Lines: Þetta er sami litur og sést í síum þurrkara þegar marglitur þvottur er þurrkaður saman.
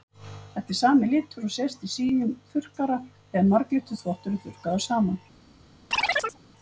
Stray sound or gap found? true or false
true